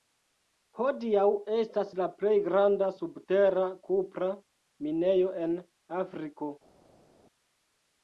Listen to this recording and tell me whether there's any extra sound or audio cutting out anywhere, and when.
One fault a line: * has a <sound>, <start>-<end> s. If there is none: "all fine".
all fine